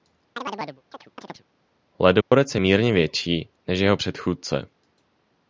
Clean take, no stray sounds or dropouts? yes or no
no